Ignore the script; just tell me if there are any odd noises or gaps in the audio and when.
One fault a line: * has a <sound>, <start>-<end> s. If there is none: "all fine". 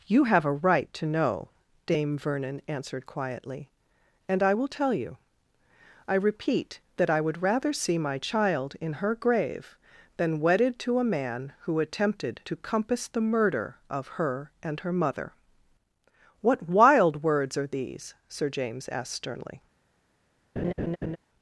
* has a laugh, 20.6-21.2 s